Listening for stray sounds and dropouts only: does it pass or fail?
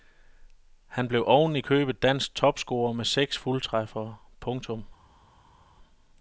pass